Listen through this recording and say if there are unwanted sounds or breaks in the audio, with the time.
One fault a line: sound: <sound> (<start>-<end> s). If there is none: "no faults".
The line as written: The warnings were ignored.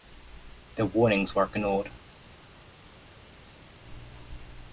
no faults